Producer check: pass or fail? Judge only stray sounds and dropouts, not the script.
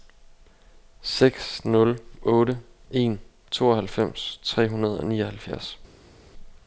pass